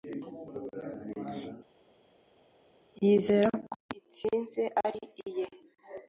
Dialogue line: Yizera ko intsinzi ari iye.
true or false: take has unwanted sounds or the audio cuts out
false